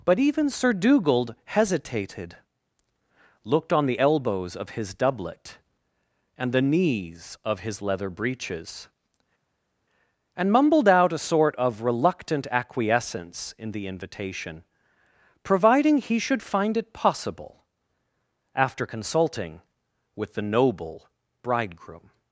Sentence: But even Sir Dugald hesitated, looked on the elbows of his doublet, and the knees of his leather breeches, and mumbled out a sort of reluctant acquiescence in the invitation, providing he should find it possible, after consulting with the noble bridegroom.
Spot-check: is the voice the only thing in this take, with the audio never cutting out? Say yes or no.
yes